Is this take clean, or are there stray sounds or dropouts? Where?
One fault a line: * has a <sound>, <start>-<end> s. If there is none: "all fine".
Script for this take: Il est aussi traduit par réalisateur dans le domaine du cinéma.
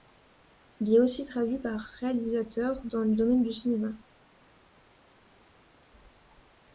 all fine